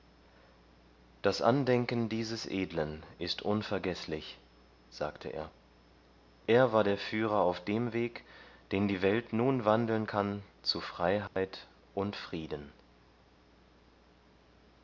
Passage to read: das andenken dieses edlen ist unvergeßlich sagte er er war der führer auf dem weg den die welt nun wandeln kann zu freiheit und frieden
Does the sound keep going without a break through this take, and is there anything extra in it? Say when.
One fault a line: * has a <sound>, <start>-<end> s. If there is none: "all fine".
* has a dropout, 11.3-11.4 s